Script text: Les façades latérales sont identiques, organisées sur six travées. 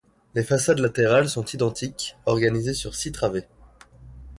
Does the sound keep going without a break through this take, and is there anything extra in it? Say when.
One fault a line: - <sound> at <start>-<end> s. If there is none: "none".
none